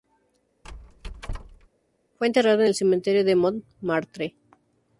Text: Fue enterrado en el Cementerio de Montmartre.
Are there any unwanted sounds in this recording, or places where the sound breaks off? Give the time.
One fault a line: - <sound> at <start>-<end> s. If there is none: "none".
- squeak at 0.6-1.7 s